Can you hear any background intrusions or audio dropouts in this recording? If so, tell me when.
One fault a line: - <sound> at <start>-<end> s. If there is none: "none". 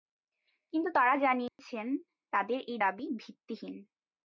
- dropout at 1.5-1.6 s